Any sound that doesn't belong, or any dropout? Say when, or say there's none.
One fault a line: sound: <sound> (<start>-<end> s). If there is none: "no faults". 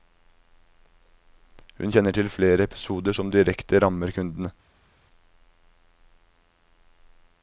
no faults